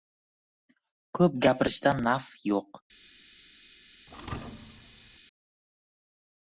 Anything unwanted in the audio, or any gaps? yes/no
yes